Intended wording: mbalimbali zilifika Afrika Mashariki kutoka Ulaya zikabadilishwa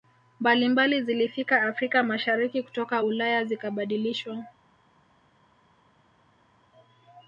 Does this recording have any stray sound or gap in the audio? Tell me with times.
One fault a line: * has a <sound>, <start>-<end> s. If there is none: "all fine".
all fine